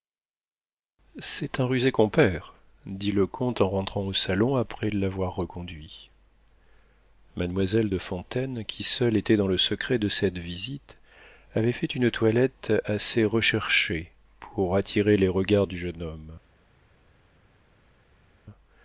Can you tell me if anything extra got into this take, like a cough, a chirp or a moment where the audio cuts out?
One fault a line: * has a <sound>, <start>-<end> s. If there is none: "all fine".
all fine